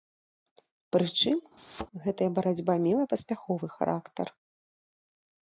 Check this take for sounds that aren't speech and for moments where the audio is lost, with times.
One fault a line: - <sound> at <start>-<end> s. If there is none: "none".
- thud at 1.6-1.9 s